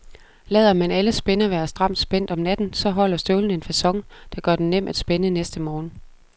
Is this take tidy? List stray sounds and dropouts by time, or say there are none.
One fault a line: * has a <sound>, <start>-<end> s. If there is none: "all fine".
all fine